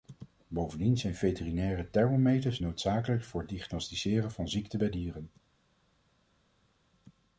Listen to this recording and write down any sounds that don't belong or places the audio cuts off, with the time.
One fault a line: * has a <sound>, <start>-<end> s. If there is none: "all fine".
all fine